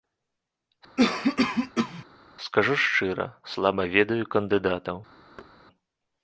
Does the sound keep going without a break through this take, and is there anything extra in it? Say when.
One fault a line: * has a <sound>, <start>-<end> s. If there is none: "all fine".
* has a cough, 1.0-2.0 s
* has a thud, 5.4-5.5 s